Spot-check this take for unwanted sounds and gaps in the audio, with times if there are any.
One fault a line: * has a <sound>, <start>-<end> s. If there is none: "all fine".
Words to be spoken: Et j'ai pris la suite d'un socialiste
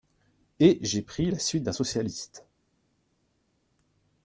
all fine